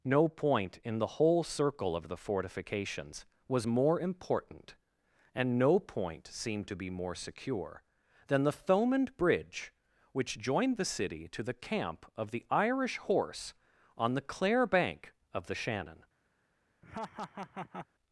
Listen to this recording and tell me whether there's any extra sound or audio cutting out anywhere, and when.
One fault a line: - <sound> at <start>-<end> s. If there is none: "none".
- laugh at 16.8-17.9 s